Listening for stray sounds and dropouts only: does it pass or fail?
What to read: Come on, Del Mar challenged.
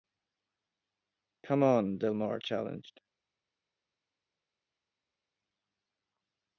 pass